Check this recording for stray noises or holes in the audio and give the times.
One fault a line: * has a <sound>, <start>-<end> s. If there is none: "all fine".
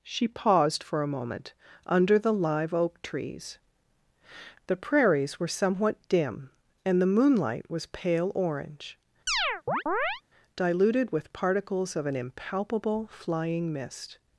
* has a chirp, 9.3-10.2 s